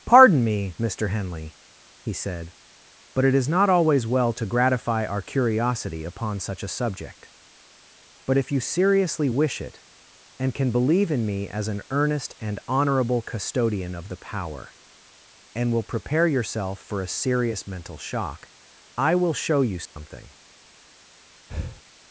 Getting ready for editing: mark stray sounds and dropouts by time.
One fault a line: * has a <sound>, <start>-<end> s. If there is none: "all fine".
* has a dropout, 19.9-20.0 s
* has a breath, 21.5-21.8 s